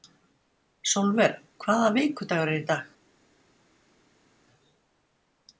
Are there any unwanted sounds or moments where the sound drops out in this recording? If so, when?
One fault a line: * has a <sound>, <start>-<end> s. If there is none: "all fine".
all fine